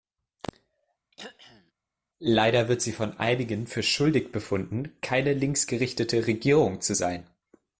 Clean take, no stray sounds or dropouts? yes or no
no